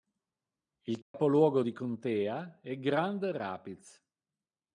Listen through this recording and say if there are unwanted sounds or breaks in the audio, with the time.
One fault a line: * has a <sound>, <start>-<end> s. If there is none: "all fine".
* has a dropout, 1.0-1.1 s